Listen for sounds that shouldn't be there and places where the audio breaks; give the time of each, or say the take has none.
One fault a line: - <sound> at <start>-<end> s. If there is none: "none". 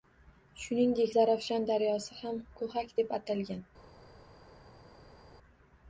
none